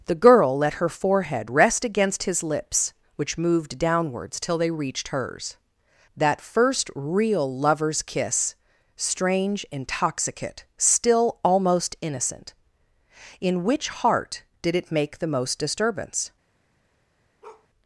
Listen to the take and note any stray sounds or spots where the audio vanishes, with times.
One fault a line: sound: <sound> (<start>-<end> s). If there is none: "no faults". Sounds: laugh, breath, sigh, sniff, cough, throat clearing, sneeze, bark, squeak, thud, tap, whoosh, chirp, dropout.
sound: bark (17.4-17.7 s)